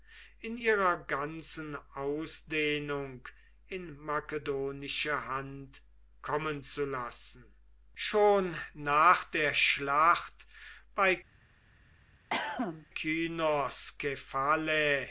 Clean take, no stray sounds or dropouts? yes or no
no